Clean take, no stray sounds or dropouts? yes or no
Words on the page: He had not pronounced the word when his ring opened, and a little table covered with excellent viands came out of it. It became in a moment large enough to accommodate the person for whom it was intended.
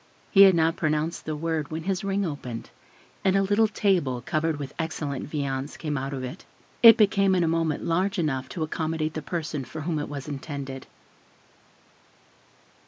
yes